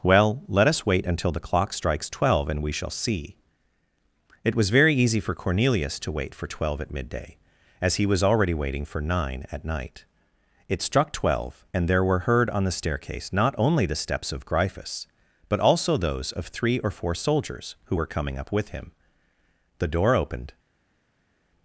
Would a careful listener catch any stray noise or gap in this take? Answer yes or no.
no